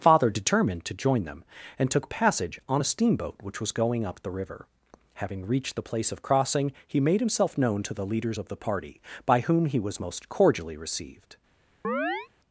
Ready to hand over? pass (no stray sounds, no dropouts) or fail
fail